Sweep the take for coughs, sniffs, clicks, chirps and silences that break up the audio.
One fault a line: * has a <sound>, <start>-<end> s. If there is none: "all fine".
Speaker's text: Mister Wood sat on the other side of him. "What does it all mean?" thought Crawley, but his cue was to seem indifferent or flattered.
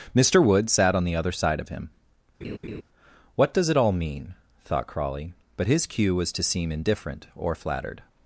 * has a laugh, 2.4-2.8 s